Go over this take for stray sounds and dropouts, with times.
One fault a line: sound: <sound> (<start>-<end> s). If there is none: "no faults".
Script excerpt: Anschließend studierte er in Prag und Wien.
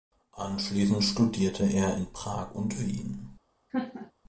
sound: laugh (3.7-4.1 s)